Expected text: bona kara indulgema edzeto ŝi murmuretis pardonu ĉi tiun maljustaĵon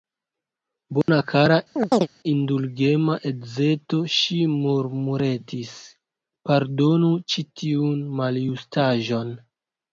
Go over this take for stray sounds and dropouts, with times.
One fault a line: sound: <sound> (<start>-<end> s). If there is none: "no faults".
sound: dropout (1.0-1.1 s)
sound: chirp (1.8-2.1 s)